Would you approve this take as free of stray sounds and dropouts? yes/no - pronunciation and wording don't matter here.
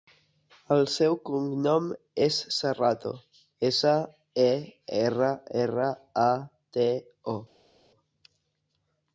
yes